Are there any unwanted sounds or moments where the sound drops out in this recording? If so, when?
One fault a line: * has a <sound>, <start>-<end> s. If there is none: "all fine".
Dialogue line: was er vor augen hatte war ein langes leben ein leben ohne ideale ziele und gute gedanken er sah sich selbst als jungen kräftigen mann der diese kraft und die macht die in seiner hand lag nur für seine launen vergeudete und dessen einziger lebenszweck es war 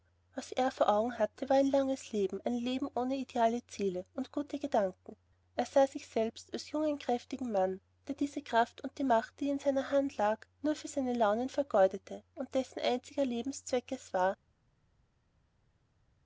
all fine